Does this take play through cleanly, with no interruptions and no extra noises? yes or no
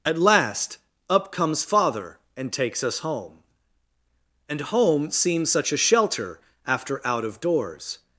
yes